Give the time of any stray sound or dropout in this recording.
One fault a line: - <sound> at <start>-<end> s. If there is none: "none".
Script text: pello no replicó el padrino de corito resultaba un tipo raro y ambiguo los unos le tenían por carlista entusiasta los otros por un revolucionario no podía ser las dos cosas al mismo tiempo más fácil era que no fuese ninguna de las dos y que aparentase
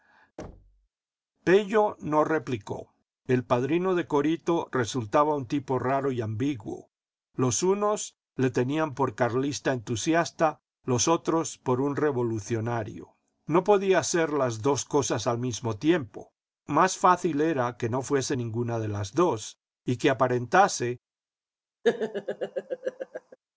- thud at 0.4-0.9 s
- laugh at 21.8-23.4 s